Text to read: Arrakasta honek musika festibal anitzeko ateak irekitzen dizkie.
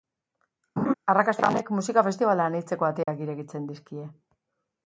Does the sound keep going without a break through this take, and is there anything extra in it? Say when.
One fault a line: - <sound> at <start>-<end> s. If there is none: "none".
- laugh at 0.8-0.9 s
- dropout at 3.0-3.1 s